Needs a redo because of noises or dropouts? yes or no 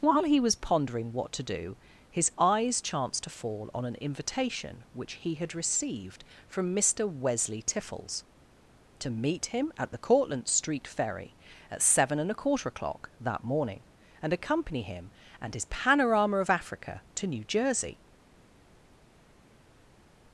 no